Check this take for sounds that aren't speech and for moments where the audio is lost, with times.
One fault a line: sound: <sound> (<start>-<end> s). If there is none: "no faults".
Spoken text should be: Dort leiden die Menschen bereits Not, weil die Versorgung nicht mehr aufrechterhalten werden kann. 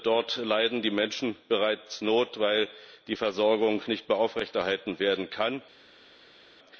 no faults